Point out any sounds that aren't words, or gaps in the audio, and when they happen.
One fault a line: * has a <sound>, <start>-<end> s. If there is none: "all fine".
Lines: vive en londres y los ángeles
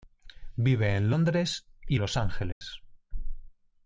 * has a dropout, 2.5-2.6 s